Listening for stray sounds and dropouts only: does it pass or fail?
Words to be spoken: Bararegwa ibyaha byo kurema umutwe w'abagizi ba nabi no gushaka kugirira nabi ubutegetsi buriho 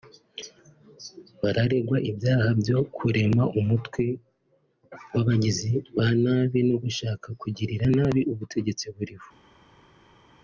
pass